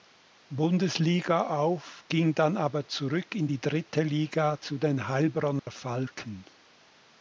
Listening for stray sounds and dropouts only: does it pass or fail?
fail